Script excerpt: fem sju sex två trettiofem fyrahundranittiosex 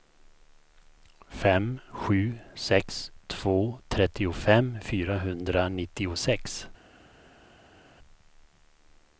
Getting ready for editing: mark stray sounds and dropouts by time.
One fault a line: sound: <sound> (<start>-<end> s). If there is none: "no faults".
no faults